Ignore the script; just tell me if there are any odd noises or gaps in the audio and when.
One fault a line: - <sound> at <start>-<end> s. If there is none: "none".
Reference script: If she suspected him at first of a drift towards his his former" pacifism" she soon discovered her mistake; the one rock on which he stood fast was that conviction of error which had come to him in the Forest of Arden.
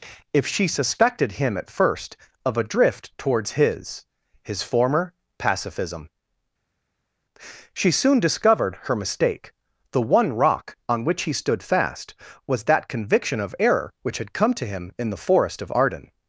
none